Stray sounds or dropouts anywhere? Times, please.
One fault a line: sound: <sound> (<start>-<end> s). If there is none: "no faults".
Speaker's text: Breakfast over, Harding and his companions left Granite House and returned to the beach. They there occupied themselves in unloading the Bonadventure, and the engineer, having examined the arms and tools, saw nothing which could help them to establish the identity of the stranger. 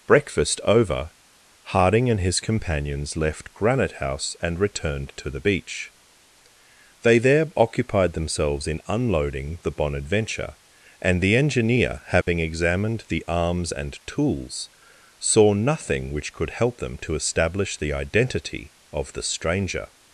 sound: dropout (12.2-12.3 s)